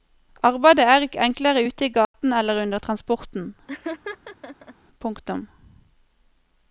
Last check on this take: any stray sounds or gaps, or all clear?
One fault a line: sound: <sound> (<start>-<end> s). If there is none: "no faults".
sound: dropout (2.0-2.1 s)
sound: laugh (3.7-4.8 s)